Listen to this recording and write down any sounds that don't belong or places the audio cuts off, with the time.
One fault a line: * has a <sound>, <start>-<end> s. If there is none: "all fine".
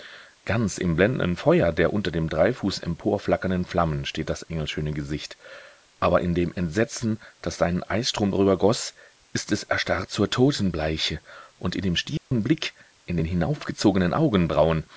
* has a dropout, 12.2-12.3 s